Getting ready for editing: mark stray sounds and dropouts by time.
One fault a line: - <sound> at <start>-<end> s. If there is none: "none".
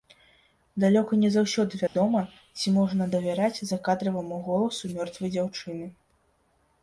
- dropout at 1.9-2.0 s